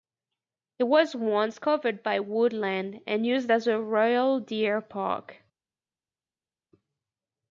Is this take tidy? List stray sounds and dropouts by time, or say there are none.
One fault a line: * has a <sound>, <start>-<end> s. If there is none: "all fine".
all fine